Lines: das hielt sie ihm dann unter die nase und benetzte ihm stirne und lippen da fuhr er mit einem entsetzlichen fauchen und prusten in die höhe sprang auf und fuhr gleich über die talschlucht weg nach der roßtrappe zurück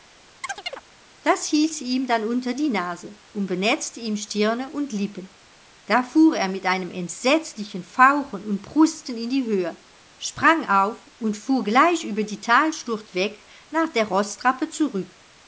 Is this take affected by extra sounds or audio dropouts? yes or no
yes